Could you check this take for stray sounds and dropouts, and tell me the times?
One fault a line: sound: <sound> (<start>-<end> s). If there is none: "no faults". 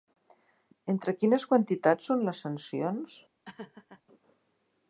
sound: laugh (3.4-4.0 s)